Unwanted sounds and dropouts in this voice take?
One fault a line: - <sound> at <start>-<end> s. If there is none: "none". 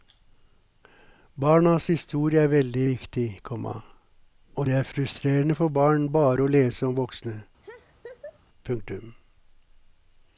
- laugh at 7.6-8.4 s